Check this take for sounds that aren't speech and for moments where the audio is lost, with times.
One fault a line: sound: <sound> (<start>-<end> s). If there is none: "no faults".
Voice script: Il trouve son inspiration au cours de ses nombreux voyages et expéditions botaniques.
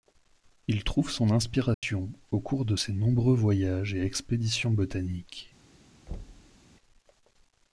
sound: dropout (1.7-1.8 s)
sound: thud (6.1-6.6 s)